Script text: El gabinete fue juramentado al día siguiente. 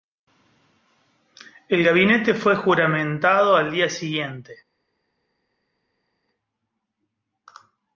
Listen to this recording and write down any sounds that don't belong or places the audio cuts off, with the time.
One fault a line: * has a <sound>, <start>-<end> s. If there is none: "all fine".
all fine